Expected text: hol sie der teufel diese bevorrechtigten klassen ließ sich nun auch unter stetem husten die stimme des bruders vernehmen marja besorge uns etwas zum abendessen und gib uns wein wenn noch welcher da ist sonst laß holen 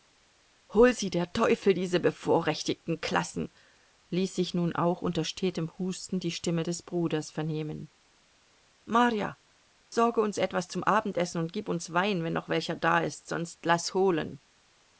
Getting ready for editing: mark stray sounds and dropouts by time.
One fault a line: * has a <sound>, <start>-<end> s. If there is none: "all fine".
* has a dropout, 9.8-9.9 s